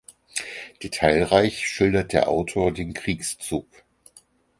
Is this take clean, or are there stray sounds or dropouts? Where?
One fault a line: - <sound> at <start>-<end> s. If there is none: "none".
none